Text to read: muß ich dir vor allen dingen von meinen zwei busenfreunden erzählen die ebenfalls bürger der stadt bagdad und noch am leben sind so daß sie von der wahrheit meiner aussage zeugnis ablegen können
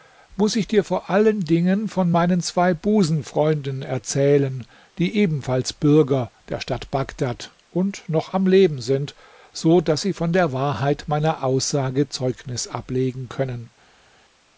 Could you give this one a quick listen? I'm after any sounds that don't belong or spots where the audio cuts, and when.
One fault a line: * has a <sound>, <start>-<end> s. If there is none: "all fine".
all fine